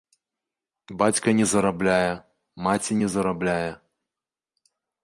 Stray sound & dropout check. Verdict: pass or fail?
pass